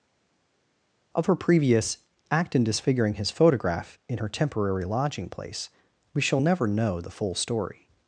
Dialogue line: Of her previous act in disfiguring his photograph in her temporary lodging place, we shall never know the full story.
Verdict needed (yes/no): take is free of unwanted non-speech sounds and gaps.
yes